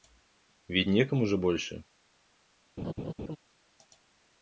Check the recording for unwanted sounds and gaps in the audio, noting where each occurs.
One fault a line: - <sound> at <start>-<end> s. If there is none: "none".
- laugh at 2.8-3.4 s